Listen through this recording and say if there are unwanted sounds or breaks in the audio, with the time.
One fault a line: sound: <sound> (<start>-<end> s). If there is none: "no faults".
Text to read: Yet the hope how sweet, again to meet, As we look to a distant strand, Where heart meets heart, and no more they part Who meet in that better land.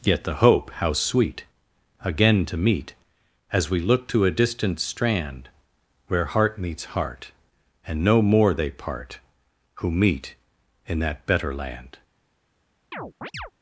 sound: chirp (12.9-13.5 s)